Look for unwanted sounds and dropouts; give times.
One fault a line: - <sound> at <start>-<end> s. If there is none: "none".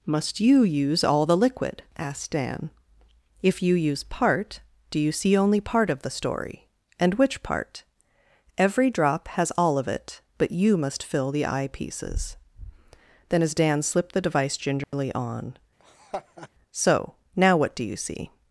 - dropout at 14.8-14.9 s
- laugh at 15.8-16.5 s